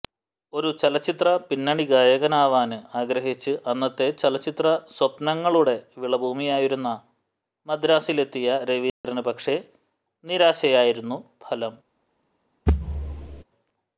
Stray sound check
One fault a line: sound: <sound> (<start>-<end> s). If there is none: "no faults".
sound: dropout (8.9-9.0 s)
sound: thud (12.7-13.4 s)